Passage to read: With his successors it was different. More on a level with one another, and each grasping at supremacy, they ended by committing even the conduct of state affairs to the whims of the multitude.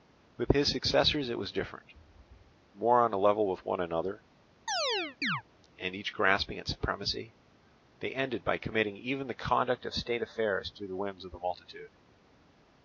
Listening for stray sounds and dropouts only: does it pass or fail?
fail